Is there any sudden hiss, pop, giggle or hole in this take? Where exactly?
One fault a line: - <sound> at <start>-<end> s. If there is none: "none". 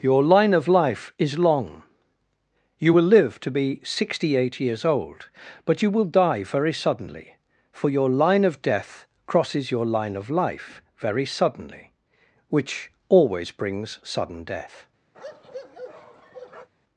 - bark at 15.1-16.7 s